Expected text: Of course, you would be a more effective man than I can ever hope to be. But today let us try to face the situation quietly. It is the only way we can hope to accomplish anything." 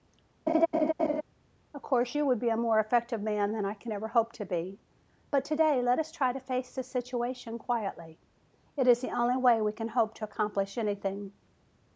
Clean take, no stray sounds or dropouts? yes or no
no